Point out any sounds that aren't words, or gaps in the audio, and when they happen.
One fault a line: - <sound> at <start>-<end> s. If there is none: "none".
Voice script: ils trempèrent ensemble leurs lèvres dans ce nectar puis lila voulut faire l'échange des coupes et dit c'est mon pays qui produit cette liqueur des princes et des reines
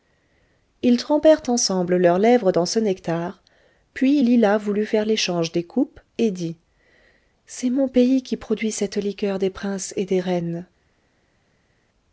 none